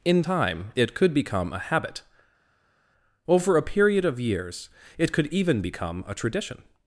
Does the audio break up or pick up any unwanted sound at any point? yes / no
no